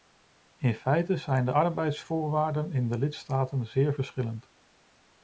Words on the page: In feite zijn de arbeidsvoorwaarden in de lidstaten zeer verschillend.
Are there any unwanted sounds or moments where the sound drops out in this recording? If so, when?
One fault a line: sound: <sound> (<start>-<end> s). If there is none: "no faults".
no faults